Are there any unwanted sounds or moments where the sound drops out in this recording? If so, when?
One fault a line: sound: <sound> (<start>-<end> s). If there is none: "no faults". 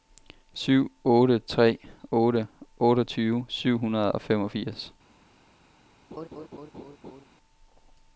sound: laugh (6.1-7.2 s)